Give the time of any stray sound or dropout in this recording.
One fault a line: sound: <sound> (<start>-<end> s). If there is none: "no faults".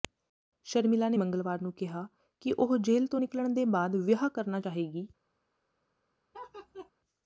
sound: laugh (6.3-6.9 s)